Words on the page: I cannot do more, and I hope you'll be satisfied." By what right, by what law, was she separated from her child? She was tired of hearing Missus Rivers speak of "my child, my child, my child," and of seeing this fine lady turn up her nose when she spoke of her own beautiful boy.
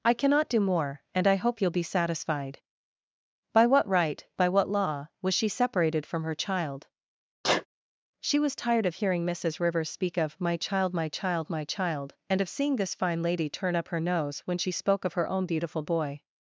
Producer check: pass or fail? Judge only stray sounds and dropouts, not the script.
fail